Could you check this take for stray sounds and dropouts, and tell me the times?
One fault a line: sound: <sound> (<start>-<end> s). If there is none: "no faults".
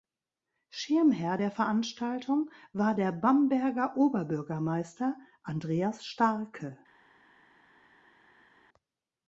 no faults